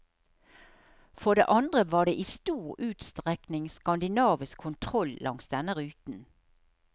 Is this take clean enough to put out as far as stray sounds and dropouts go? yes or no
yes